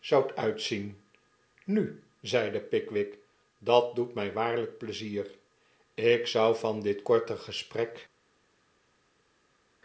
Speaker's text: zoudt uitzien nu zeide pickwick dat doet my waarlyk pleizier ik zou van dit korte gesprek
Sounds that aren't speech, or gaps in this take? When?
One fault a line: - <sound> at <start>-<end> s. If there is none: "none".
none